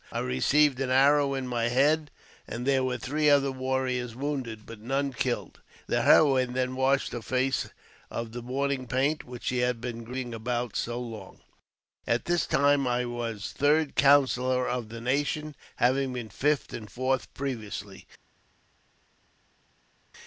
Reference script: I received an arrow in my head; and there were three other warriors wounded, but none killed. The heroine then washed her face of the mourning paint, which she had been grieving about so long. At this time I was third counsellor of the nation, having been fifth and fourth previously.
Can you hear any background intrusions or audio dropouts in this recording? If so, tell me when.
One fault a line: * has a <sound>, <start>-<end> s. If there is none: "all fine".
all fine